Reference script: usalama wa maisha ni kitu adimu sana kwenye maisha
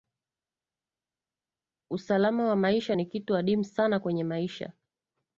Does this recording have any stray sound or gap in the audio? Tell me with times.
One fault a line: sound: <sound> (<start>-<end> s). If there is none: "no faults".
no faults